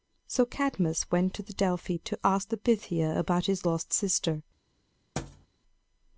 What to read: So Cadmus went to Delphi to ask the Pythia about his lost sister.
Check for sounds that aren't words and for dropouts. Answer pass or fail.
fail